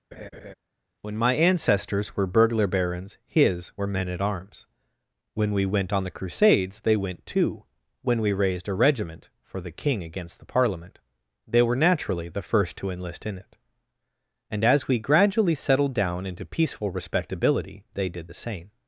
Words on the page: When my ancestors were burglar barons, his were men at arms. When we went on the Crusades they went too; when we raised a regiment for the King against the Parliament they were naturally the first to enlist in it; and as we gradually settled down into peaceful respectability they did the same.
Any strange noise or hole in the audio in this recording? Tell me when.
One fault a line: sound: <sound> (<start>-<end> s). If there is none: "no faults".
sound: laugh (0.1-0.5 s)